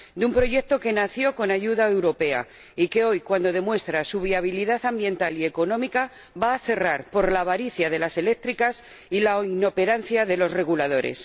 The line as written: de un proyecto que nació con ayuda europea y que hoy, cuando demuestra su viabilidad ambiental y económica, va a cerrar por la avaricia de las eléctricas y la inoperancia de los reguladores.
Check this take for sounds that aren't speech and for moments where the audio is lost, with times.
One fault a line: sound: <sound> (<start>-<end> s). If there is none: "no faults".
no faults